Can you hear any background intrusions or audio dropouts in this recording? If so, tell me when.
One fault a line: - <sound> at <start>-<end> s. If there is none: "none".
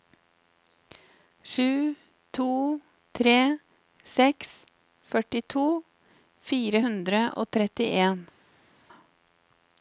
none